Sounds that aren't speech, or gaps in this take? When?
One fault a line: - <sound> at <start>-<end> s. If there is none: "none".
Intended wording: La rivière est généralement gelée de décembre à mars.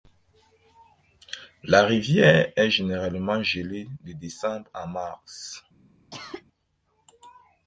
- cough at 6.1-6.4 s